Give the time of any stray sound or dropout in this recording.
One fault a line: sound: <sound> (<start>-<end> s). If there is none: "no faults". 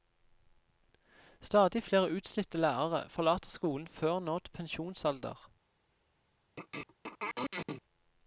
sound: throat clearing (6.6-7.8 s)